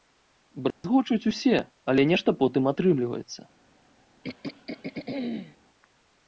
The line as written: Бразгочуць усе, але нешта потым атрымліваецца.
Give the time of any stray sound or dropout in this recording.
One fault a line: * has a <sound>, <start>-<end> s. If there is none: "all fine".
* has a dropout, 0.7-0.8 s
* has a throat clearing, 4.2-5.6 s